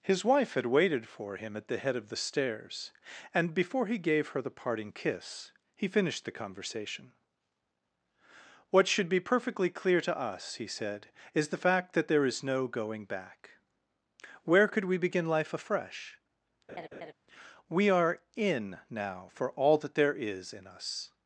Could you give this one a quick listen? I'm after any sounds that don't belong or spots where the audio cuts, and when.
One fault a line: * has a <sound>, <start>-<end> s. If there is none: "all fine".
* has a laugh, 16.7-17.1 s